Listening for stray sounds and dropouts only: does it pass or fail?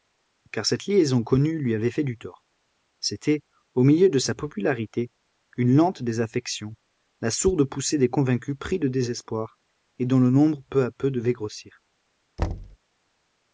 fail